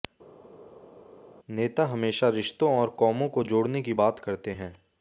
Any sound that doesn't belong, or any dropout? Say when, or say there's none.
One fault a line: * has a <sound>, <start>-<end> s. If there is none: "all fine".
all fine